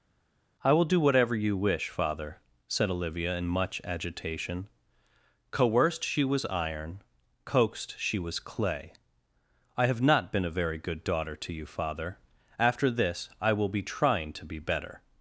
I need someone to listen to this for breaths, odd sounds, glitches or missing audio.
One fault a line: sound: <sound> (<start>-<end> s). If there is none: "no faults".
no faults